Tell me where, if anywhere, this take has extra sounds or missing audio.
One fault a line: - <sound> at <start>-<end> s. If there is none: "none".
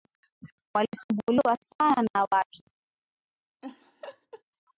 - laugh at 3.6-4.4 s